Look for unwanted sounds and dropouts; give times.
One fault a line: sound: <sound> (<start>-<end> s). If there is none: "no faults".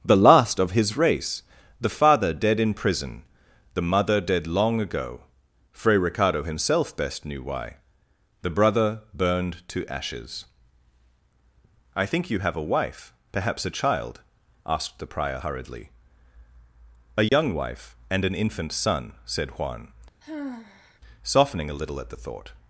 sound: dropout (17.3-17.3 s)
sound: sigh (20.2-21.0 s)